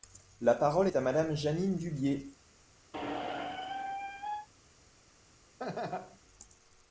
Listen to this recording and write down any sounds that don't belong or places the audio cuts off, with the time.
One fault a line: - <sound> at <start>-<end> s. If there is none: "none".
- squeak at 2.9-4.5 s
- laugh at 5.6-6.2 s